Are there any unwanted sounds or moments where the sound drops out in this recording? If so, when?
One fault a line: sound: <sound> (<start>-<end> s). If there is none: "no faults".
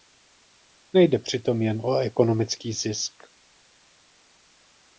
no faults